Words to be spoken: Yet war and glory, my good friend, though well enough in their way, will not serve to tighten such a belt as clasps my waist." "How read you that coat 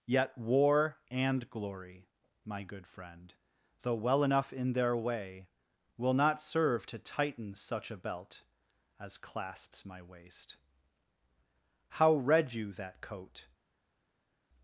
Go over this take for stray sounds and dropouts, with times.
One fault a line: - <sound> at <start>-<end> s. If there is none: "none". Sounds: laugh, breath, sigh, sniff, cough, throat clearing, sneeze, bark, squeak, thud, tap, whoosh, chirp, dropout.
none